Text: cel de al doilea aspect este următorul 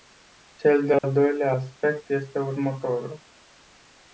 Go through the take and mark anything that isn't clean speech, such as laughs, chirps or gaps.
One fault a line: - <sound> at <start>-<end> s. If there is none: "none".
- dropout at 1.0-1.0 s